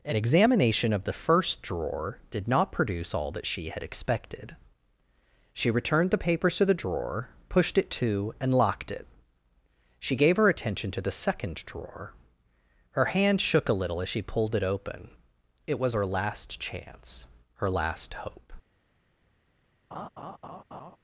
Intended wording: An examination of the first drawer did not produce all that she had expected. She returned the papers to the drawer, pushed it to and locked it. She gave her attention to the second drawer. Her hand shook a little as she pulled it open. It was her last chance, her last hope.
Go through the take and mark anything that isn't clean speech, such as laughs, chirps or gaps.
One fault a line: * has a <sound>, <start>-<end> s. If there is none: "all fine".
* has a laugh, 19.9-21.0 s